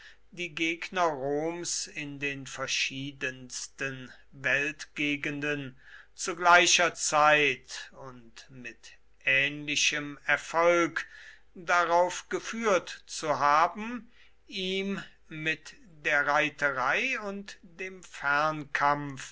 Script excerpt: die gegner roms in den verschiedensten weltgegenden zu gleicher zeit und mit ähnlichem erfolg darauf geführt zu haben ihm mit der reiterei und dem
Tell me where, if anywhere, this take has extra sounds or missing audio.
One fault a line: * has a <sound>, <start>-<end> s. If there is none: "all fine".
all fine